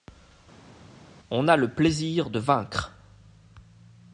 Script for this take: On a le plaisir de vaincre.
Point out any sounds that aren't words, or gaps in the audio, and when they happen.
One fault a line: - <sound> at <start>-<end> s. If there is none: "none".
none